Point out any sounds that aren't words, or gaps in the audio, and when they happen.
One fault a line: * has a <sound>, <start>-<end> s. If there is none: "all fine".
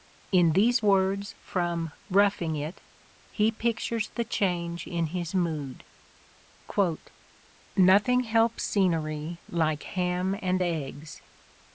all fine